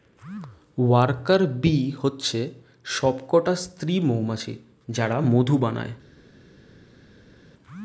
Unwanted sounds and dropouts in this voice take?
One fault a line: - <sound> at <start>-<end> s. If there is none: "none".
none